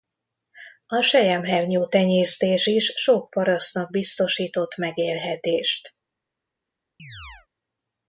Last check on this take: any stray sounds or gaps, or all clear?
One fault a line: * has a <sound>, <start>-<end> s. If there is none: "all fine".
* has a chirp, 7.0-7.5 s